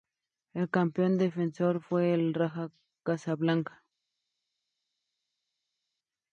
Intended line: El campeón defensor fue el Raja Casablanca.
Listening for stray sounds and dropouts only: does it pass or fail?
pass